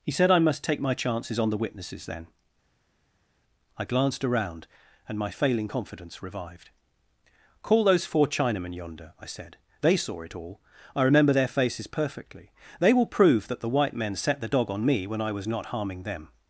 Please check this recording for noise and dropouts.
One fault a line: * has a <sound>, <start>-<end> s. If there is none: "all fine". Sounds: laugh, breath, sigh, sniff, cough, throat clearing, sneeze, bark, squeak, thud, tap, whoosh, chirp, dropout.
all fine